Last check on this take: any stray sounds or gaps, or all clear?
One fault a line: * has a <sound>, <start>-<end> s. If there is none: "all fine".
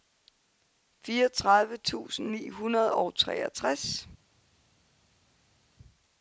all fine